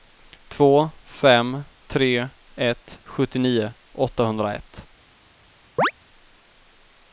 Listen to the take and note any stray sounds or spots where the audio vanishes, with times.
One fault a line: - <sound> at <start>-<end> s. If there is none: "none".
- chirp at 5.8-5.9 s